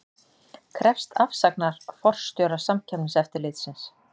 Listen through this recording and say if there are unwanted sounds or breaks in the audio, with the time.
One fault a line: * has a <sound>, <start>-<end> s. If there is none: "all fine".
all fine